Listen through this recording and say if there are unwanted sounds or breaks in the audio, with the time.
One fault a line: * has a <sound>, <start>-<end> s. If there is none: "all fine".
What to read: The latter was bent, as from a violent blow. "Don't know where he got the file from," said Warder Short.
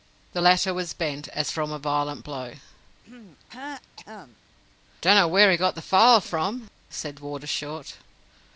* has a throat clearing, 3.0-4.4 s